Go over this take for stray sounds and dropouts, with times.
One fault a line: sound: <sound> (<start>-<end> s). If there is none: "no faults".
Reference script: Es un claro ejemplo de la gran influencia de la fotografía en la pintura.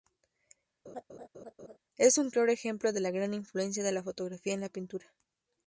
sound: laugh (0.8-1.8 s)